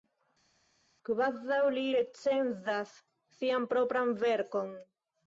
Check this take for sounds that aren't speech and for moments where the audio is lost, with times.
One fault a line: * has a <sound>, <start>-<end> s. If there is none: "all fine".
all fine